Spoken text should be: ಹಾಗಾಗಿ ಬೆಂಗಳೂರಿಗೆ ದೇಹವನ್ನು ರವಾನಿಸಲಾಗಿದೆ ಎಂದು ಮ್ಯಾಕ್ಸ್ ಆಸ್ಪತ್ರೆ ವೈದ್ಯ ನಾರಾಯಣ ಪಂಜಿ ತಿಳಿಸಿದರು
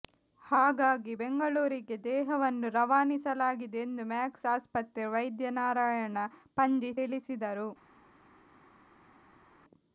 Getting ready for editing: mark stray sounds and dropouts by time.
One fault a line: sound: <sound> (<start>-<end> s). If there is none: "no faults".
no faults